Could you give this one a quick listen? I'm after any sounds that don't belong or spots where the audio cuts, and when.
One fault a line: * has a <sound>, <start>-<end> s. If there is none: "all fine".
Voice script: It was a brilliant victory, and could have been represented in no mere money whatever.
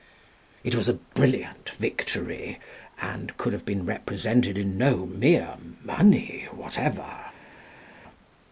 all fine